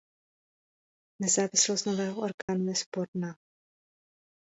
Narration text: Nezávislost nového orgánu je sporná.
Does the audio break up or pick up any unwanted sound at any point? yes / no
yes